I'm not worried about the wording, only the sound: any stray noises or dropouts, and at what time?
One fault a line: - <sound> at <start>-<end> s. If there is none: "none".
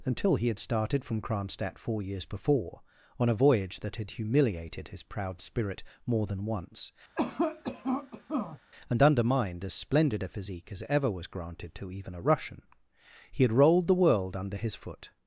- cough at 7.2-8.6 s